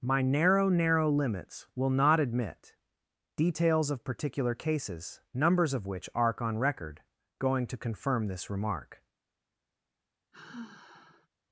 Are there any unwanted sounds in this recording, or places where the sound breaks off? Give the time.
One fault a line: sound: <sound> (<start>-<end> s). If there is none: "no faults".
sound: sigh (10.3-11.3 s)